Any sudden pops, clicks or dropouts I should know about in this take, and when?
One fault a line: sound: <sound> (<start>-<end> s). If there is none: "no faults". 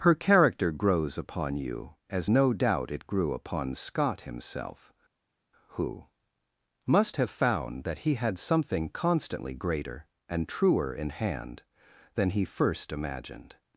no faults